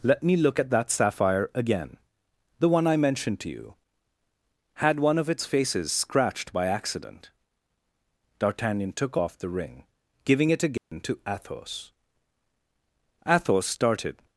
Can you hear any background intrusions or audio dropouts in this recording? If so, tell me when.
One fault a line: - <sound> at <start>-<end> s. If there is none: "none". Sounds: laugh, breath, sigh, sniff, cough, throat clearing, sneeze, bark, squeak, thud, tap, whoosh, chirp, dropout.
- dropout at 10.8-10.9 s